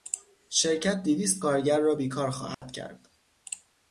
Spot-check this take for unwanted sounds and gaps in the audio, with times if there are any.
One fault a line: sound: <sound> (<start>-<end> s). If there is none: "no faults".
sound: dropout (2.5-2.6 s)